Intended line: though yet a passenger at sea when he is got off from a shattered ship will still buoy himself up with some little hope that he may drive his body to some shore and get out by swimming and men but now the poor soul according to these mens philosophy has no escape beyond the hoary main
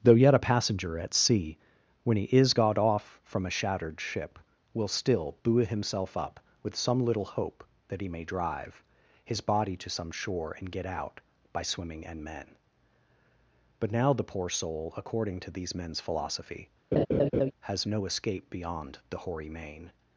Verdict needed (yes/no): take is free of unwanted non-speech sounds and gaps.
no